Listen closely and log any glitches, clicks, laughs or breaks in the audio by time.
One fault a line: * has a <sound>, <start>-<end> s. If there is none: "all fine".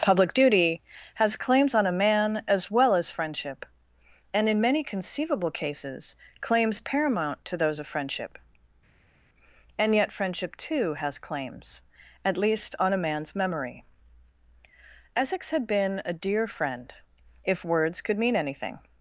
all fine